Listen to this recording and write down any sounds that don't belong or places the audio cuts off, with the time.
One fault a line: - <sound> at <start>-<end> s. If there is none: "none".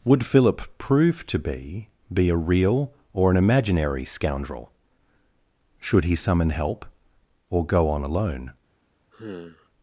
- sigh at 9.1-9.7 s